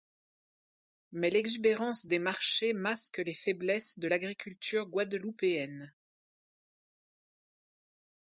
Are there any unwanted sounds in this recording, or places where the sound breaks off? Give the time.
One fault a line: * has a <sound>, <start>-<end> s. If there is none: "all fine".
all fine